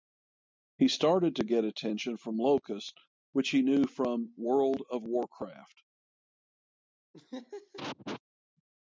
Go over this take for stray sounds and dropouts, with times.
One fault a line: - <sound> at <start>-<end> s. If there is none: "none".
- laugh at 7.1-8.2 s